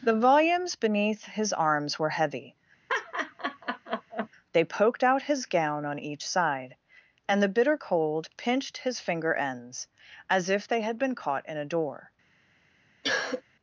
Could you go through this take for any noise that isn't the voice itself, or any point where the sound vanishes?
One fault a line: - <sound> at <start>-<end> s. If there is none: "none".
- laugh at 2.9-4.3 s
- cough at 13.0-13.4 s